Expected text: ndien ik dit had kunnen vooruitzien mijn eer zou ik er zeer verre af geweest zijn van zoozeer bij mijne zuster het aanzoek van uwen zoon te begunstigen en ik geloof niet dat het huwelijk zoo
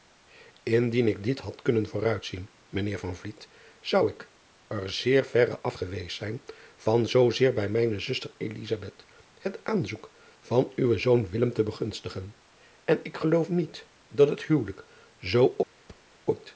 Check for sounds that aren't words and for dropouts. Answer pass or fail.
fail